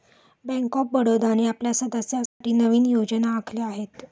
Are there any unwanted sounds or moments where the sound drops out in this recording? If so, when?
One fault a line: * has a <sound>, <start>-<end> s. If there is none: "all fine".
* has a dropout, 2.3-2.4 s